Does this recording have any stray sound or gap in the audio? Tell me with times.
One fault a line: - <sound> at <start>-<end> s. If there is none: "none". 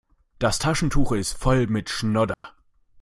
- dropout at 2.3-2.4 s